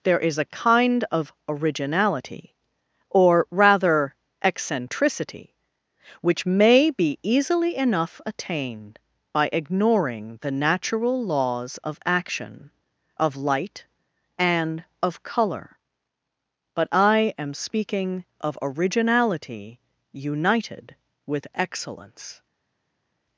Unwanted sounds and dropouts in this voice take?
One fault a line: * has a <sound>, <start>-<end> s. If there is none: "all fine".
all fine